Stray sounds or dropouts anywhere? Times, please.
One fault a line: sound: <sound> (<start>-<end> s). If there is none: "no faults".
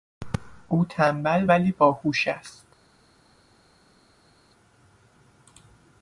no faults